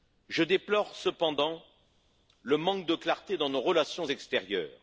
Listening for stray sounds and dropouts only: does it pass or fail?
pass